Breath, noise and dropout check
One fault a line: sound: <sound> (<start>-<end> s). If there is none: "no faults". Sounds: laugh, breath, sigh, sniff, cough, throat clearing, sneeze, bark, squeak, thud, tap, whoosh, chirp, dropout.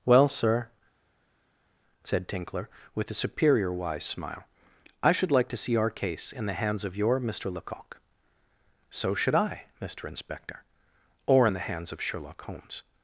no faults